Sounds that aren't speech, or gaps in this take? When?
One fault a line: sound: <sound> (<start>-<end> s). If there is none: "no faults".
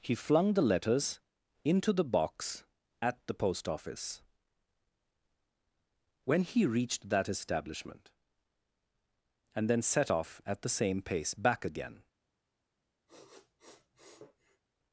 sound: sniff (13.1-14.6 s)